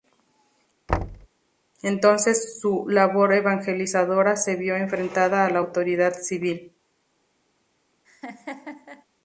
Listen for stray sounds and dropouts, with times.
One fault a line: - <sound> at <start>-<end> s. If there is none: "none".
- thud at 0.9-1.3 s
- laugh at 8.0-9.0 s